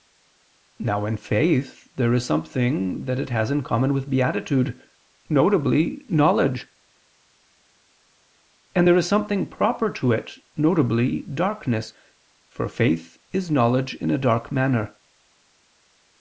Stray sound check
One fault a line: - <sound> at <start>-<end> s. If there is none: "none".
none